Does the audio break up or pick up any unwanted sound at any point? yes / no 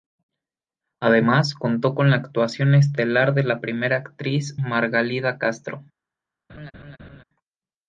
yes